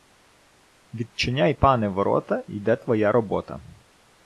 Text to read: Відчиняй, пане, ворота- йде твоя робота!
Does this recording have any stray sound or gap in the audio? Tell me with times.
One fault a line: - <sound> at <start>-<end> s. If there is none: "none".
none